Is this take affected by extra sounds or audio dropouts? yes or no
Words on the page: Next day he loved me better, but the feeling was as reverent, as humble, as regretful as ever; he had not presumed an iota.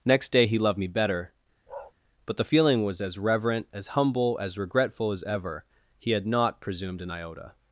yes